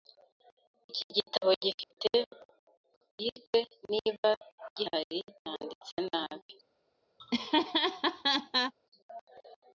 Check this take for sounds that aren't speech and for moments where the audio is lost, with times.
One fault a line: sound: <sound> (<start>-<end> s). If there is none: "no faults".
sound: dropout (1.8-1.9 s)
sound: laugh (7.2-8.7 s)